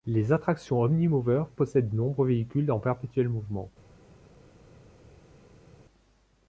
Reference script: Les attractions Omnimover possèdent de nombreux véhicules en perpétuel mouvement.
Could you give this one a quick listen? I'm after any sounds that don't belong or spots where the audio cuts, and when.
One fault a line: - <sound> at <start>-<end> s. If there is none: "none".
none